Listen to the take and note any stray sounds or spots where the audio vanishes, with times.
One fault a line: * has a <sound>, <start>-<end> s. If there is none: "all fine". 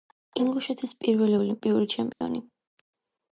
* has a dropout, 2.1-2.2 s